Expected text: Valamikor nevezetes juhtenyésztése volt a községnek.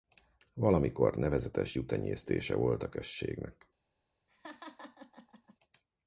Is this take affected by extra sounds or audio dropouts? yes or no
yes